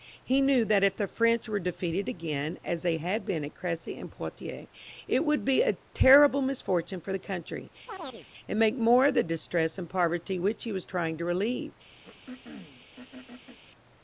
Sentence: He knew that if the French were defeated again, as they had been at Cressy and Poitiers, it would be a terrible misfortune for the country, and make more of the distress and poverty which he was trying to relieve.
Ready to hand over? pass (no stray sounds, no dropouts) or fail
fail